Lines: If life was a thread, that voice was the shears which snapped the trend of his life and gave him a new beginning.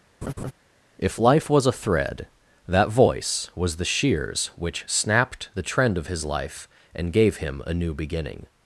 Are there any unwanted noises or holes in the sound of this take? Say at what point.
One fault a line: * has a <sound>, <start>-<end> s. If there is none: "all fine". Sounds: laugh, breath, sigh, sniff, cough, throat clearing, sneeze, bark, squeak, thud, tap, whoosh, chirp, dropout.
* has a laugh, 0.2-0.5 s